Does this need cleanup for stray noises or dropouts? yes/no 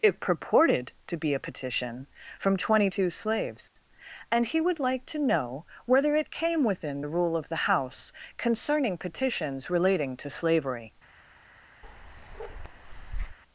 yes